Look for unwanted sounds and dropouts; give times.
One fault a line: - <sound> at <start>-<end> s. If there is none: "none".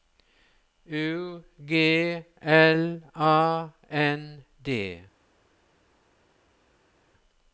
none